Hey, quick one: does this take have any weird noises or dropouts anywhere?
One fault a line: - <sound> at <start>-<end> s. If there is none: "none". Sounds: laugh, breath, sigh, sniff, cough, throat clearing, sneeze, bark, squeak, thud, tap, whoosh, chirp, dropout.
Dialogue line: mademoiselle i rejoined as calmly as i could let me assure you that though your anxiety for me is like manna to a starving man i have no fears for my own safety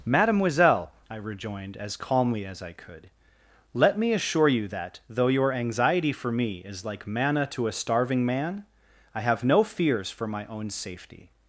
none